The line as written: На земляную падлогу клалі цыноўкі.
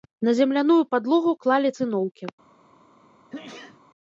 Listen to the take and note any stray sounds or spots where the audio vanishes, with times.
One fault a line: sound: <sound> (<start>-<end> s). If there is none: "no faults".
sound: sneeze (3.3-3.8 s)